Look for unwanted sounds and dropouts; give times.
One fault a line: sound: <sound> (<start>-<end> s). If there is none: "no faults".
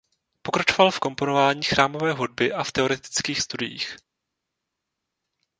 no faults